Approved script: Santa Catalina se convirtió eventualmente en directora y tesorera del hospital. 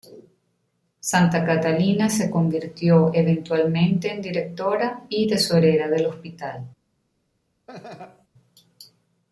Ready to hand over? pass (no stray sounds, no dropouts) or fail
fail